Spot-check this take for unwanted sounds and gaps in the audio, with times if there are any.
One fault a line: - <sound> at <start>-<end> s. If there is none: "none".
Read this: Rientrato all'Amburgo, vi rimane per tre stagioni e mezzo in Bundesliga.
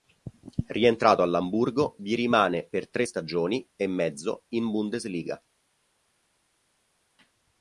none